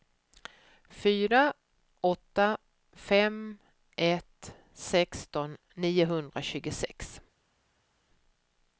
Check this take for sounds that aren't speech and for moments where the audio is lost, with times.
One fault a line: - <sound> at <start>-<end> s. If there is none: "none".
none